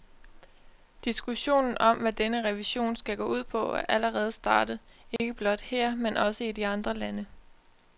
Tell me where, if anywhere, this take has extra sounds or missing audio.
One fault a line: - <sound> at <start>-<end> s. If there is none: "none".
- dropout at 5.2-5.2 s